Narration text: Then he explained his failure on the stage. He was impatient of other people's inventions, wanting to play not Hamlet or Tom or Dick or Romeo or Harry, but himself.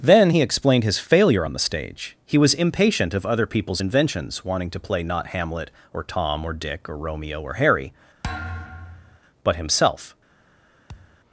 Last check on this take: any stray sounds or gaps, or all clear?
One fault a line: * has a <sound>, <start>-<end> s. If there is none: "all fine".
* has a thud, 8.2-9.2 s
* has a thud, 10.9-11.2 s